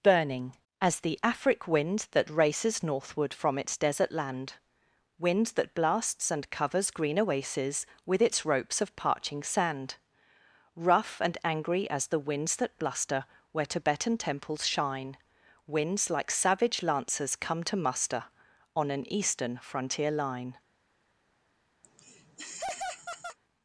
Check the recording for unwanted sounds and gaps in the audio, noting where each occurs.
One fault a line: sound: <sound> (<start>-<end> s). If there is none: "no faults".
sound: laugh (21.8-23.4 s)